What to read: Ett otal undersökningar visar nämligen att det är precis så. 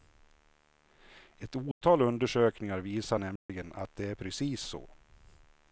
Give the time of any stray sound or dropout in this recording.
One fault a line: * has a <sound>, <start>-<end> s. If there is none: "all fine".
* has a dropout, 1.7-1.8 s
* has a dropout, 3.4-3.5 s